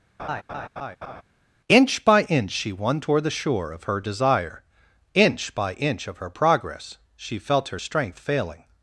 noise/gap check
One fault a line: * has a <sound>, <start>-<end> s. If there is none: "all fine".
* has a laugh, 0.2-1.2 s